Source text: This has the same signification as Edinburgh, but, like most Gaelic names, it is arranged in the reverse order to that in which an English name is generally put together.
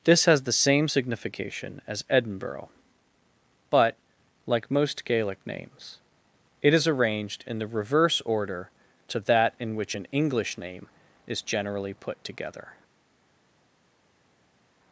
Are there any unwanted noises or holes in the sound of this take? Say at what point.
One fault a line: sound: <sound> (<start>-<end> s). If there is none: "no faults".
no faults